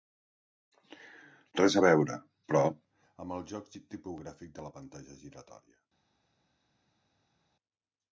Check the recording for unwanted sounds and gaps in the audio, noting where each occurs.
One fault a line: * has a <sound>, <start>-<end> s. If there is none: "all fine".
all fine